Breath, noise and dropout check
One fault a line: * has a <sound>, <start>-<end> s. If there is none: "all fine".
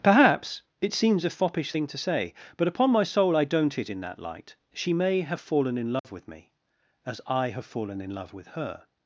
* has a dropout, 6.0-6.0 s